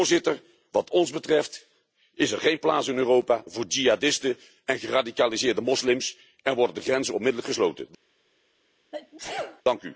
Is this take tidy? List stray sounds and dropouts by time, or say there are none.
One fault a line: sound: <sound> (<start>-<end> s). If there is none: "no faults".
sound: sneeze (8.9-9.6 s)